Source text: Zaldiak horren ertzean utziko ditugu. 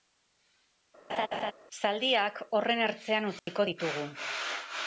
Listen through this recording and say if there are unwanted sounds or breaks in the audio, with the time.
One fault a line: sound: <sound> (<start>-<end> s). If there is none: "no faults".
sound: laugh (1.1-1.5 s)
sound: dropout (3.4-3.5 s)